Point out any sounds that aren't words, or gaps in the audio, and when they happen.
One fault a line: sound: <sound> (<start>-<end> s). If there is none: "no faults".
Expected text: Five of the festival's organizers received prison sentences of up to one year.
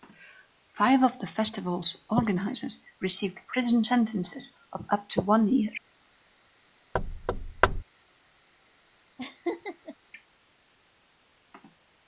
sound: thud (6.9-7.8 s)
sound: laugh (9.2-10.0 s)